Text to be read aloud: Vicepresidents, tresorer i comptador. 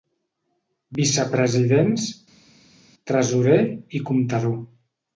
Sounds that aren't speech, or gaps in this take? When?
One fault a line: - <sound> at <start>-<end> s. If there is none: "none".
none